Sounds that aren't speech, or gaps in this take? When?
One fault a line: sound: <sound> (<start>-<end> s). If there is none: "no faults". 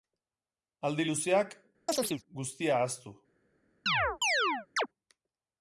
sound: chirp (1.9-2.2 s)
sound: chirp (3.9-4.9 s)